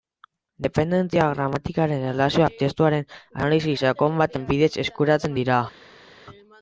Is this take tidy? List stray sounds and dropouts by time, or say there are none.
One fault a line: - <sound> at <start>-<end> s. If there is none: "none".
none